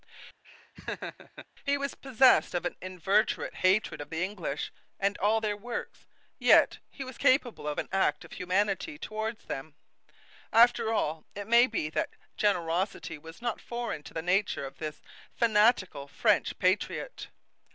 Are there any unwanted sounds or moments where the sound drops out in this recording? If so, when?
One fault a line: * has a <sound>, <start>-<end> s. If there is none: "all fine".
* has a laugh, 0.4-1.5 s